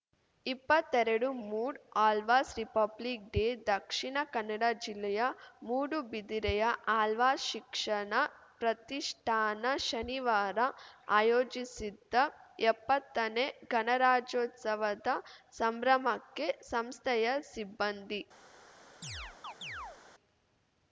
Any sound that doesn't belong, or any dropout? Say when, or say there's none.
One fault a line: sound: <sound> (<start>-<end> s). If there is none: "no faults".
sound: chirp (19.0-20.0 s)